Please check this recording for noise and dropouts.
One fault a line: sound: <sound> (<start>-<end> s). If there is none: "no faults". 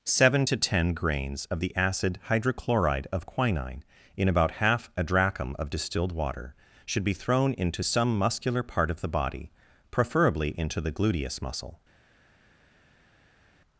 no faults